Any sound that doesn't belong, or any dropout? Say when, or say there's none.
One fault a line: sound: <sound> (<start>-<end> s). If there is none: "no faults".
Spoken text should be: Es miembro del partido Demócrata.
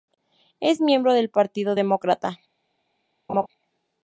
sound: laugh (3.3-3.5 s)